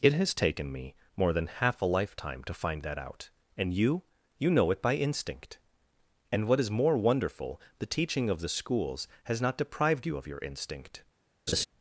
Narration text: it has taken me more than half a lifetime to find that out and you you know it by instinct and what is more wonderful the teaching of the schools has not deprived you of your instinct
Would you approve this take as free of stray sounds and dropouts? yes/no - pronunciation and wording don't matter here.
no